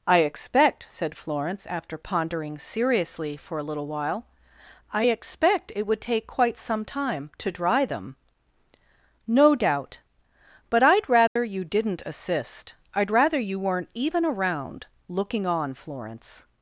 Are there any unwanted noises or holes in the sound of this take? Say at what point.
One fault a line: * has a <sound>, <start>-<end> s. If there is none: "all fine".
* has a dropout, 11.3-11.4 s